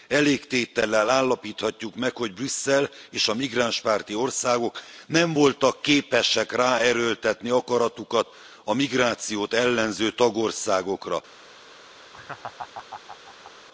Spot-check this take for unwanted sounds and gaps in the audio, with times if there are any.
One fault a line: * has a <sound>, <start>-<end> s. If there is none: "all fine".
* has a laugh, 12.1-13.5 s